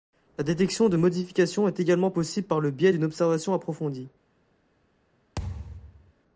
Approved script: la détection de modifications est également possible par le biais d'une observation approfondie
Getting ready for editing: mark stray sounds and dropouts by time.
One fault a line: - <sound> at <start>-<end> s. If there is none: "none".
- thud at 5.4-6.1 s